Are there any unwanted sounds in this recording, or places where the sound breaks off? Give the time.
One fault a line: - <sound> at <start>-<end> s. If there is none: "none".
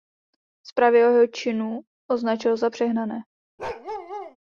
- bark at 3.6-4.4 s